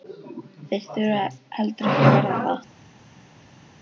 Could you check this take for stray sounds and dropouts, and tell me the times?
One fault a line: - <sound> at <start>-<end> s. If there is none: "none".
none